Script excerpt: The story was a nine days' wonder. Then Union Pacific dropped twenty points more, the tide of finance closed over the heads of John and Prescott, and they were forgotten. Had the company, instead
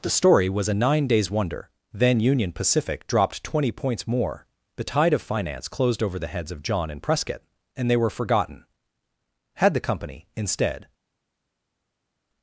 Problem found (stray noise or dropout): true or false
false